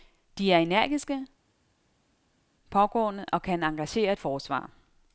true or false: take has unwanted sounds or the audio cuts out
false